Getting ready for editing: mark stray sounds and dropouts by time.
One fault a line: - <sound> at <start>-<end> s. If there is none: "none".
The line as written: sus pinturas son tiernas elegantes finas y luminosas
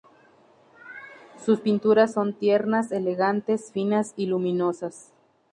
none